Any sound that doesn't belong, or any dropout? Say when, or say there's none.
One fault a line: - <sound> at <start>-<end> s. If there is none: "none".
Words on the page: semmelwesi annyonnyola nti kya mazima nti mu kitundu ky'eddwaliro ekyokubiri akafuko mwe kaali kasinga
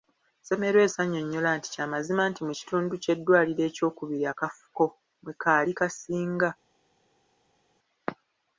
none